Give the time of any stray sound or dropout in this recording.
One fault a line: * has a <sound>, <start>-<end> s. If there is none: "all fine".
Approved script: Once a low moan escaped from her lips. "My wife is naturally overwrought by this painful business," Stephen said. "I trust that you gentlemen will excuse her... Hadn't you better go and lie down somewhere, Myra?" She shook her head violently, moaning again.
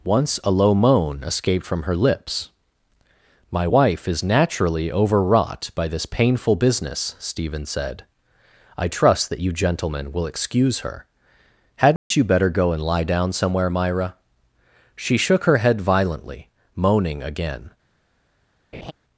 * has a dropout, 12.0-12.1 s
* has a laugh, 18.7-18.9 s